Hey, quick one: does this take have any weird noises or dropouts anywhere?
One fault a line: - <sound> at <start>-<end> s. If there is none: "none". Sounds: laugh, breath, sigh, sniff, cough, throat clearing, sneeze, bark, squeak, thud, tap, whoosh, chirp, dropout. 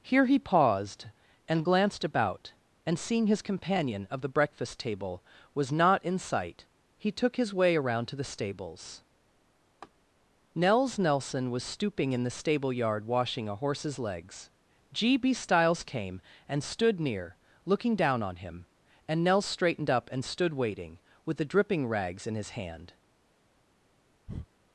- laugh at 9.8-9.9 s
- breath at 24.3-24.5 s